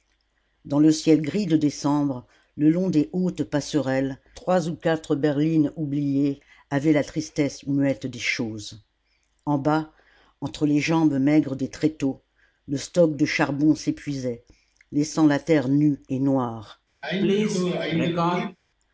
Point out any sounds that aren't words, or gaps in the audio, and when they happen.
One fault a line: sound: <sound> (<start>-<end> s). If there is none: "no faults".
sound: sneeze (17.0-18.6 s)